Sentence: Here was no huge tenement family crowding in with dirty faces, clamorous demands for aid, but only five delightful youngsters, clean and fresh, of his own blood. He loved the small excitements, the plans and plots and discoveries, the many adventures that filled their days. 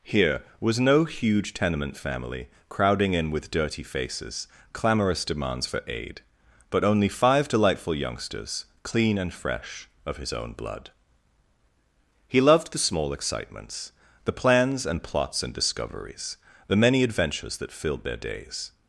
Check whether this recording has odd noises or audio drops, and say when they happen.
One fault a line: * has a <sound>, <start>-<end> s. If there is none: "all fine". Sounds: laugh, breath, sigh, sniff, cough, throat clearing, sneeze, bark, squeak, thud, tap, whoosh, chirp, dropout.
all fine